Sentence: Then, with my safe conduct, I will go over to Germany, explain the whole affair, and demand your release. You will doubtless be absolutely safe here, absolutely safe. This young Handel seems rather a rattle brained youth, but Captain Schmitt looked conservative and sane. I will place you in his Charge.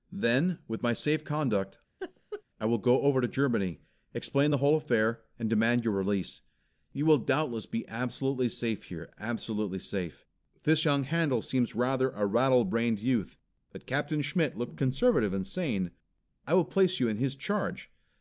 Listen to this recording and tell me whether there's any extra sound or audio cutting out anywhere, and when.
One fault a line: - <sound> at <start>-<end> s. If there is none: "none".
- laugh at 2.0-2.4 s